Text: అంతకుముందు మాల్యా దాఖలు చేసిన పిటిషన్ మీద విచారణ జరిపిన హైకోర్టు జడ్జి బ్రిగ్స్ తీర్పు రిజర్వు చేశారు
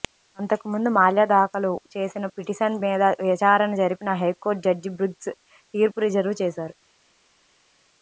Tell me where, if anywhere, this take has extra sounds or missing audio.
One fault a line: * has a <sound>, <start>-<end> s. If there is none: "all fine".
all fine